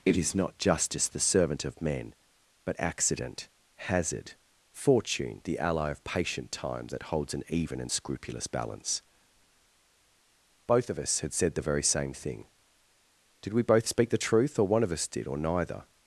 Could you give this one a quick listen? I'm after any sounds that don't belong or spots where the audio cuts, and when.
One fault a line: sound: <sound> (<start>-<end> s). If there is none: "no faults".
no faults